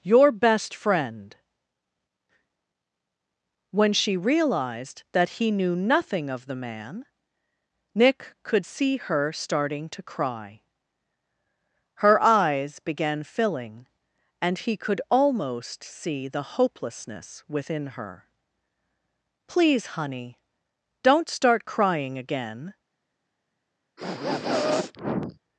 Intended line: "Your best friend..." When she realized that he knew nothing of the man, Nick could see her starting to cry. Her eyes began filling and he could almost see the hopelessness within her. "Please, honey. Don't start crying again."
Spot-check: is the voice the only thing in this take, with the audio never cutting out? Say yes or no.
no